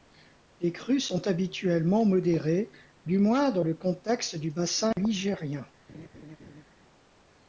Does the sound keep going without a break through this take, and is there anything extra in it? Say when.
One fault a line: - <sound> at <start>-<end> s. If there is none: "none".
- laugh at 5.9-6.6 s